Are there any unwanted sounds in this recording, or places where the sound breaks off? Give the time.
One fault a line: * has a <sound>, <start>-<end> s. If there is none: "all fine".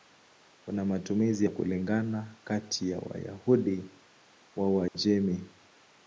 * has a dropout, 4.9-4.9 s